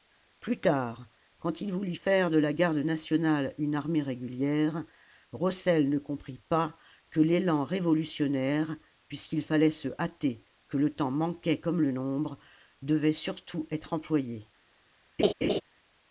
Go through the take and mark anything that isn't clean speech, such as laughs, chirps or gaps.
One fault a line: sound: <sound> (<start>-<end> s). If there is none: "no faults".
sound: laugh (15.2-15.6 s)